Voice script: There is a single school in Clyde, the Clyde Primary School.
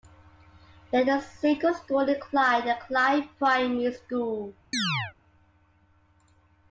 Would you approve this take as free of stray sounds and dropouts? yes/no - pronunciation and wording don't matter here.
no